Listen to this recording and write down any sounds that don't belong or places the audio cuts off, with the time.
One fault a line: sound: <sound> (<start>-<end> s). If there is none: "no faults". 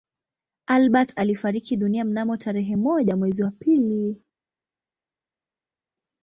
no faults